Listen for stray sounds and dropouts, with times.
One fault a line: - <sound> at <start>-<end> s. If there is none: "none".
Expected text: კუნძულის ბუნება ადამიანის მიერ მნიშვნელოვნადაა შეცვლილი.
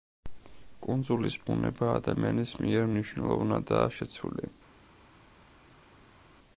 none